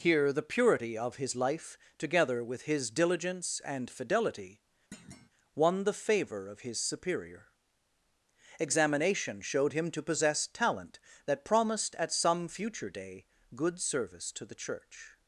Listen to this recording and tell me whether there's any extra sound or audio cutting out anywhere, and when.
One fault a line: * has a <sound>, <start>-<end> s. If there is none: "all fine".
* has a thud, 4.9-5.3 s